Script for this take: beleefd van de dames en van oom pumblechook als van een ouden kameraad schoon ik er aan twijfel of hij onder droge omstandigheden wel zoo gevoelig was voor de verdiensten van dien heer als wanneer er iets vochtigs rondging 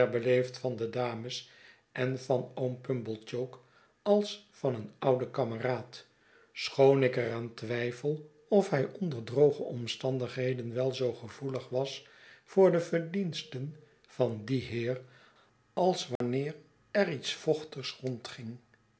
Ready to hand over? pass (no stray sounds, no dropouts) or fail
fail